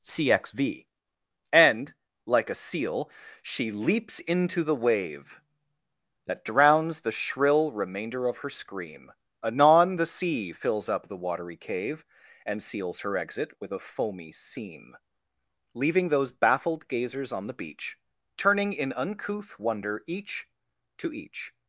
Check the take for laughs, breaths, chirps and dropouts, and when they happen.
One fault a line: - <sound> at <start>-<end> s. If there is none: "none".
none